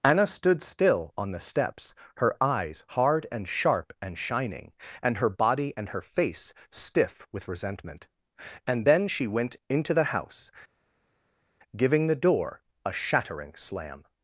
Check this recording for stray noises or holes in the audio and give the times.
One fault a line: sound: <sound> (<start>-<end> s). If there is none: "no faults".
no faults